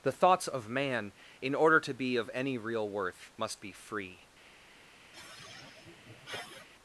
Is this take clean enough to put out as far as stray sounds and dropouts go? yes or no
no